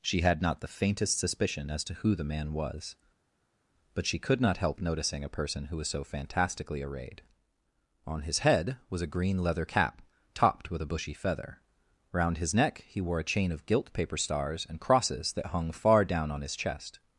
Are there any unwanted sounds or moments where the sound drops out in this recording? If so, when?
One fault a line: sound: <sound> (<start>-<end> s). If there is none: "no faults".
no faults